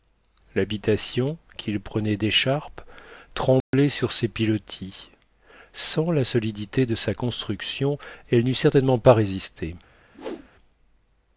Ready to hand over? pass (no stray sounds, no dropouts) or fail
fail